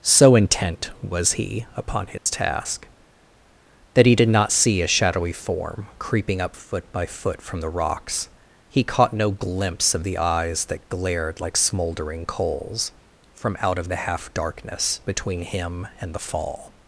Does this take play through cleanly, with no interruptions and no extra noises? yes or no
no